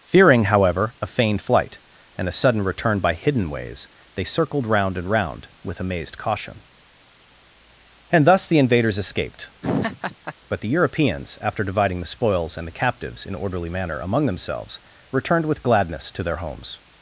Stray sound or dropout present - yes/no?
yes